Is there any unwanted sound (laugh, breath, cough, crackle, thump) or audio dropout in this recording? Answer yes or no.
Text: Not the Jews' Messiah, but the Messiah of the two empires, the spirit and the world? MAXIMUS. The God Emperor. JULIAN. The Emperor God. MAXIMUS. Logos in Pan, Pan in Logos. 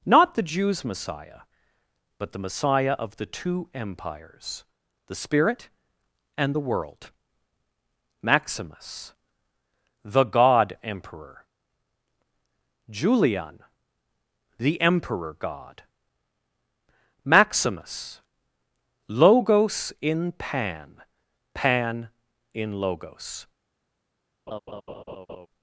yes